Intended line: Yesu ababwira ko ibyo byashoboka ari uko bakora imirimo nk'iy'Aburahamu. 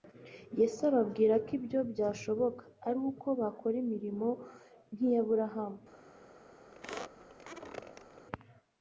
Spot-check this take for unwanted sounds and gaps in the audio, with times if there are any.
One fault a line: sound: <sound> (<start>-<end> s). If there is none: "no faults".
sound: squeak (6.7-8.3 s)